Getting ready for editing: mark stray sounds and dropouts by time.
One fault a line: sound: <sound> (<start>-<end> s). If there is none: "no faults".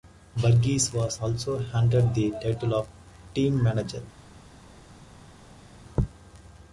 no faults